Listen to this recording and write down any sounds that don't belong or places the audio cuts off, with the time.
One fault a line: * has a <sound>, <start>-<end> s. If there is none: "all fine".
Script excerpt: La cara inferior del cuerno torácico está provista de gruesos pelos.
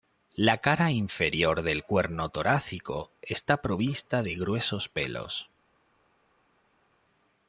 all fine